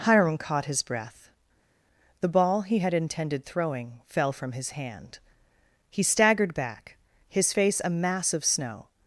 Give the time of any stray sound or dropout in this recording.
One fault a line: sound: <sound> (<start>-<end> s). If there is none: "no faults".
no faults